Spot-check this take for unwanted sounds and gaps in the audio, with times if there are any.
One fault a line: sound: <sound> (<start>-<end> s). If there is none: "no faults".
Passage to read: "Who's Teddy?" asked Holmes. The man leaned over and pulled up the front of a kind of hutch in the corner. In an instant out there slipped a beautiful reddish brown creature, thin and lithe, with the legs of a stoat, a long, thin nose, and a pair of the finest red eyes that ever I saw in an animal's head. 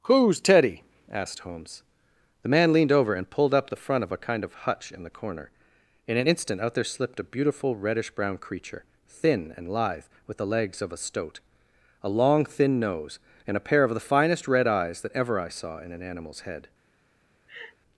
sound: laugh (17.5-17.8 s)